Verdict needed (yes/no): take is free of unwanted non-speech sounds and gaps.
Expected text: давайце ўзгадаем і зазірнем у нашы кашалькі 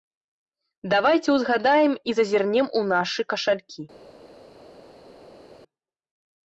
yes